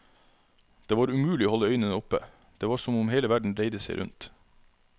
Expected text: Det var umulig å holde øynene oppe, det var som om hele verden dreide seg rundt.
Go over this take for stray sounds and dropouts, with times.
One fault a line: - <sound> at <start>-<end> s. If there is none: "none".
none